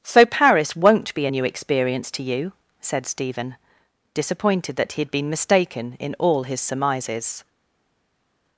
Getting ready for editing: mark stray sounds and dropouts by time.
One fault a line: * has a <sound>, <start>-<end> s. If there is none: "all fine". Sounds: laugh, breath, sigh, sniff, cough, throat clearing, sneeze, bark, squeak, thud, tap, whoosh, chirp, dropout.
all fine